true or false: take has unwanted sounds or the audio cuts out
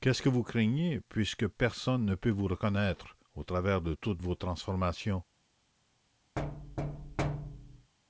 true